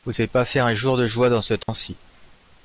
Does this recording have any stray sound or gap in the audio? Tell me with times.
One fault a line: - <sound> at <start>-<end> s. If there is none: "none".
- dropout at 1.6-1.7 s